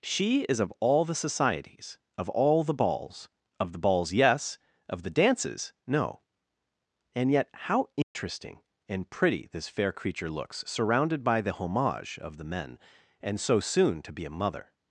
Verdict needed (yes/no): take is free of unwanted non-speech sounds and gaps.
no